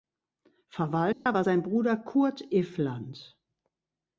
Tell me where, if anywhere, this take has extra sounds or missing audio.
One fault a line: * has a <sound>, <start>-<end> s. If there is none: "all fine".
* has a dropout, 1.1-1.3 s